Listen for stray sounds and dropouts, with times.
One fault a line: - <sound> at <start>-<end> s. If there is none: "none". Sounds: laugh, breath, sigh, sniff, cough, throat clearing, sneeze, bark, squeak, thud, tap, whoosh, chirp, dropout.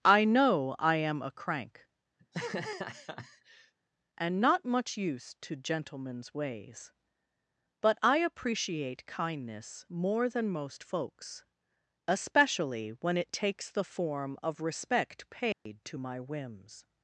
- laugh at 2.2-3.7 s
- dropout at 15.5-15.7 s